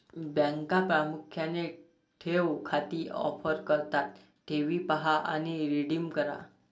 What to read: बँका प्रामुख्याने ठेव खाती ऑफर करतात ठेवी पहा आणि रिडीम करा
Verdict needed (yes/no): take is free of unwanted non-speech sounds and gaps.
yes